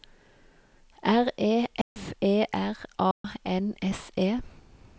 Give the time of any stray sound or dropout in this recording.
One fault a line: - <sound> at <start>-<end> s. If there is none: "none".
- dropout at 1.8-2.0 s
- dropout at 3.1-3.2 s